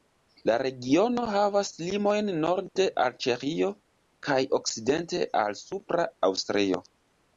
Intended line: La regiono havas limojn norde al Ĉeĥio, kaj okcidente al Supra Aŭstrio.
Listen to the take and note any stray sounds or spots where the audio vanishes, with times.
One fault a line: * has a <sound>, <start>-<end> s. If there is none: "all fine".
all fine